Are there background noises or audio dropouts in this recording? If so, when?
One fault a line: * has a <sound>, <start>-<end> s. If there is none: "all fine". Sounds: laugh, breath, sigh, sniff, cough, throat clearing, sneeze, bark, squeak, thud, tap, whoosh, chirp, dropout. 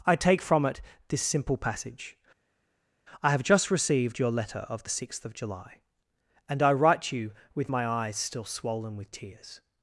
all fine